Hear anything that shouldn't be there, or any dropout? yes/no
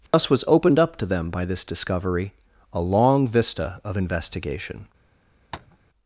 yes